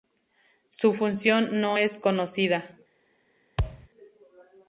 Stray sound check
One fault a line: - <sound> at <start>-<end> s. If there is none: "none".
- thud at 3.6-3.9 s